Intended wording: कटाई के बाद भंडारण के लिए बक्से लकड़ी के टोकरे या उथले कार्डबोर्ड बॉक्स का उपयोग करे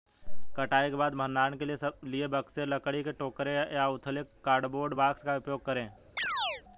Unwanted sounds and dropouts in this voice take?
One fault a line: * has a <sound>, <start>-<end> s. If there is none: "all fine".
* has a chirp, 6.2-6.6 s